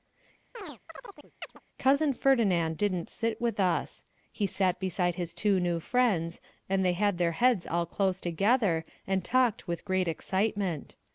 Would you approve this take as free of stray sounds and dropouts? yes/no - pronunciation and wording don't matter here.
no